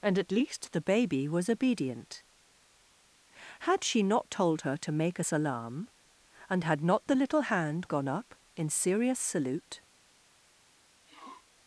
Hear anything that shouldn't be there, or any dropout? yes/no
yes